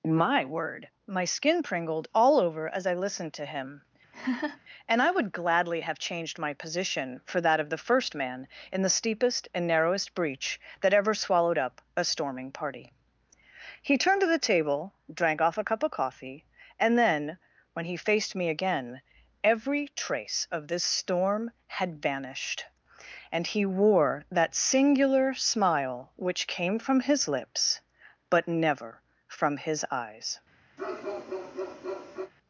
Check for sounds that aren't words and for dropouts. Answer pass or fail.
fail